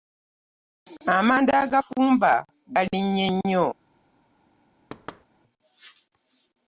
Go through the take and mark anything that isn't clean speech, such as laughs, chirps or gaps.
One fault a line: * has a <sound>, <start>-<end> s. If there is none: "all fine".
* has a thud, 4.9-5.2 s